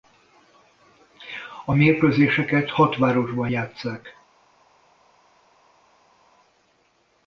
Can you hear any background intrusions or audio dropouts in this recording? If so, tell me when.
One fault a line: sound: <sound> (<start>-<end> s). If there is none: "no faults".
no faults